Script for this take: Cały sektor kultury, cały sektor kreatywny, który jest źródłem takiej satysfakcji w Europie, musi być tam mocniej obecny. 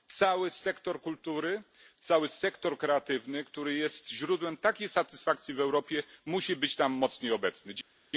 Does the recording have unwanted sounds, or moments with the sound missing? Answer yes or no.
no